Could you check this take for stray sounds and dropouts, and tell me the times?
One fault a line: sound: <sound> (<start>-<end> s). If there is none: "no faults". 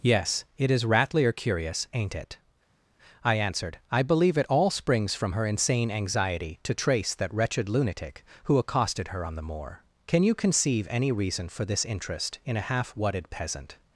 no faults